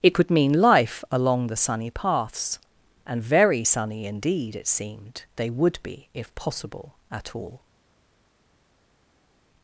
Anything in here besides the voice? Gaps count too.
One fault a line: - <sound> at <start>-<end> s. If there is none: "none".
none